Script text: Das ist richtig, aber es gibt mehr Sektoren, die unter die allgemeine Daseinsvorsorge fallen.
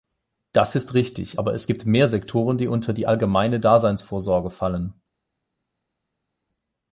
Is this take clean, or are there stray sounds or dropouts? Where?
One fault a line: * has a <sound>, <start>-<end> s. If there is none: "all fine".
all fine